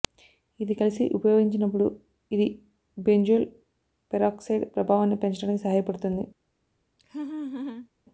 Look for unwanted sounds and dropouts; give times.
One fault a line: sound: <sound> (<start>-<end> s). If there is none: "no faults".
sound: laugh (7.0-7.9 s)